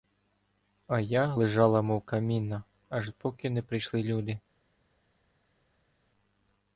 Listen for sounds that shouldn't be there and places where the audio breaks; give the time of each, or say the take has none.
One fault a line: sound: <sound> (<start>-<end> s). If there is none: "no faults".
no faults